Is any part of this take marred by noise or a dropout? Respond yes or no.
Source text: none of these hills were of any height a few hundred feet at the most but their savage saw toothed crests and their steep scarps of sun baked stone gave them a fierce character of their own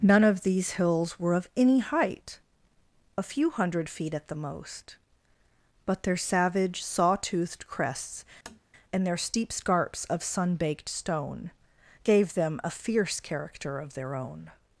yes